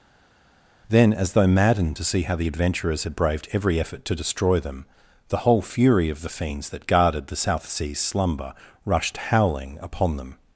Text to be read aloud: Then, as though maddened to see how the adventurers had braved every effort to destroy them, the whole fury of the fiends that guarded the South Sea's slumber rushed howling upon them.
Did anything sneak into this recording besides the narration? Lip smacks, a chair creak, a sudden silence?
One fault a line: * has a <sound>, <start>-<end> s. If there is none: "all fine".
all fine